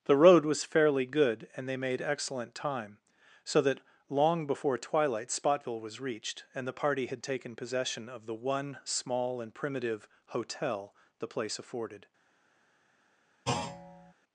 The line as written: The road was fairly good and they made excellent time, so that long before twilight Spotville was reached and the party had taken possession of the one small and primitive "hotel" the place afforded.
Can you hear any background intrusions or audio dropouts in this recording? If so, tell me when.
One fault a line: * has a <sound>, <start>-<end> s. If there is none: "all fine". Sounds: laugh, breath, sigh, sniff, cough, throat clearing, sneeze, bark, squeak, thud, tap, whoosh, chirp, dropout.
* has a thud, 13.5-14.1 s